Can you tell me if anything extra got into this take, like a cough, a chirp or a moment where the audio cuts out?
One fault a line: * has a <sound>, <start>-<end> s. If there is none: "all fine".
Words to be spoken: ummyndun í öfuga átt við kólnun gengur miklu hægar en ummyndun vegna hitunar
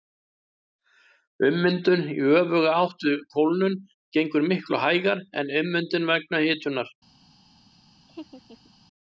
* has a laugh, 8.1-8.7 s